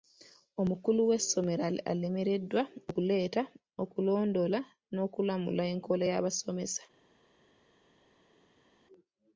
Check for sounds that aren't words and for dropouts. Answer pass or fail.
pass